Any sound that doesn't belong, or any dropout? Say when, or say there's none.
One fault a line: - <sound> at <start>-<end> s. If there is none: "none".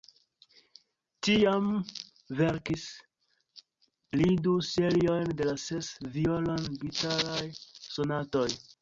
none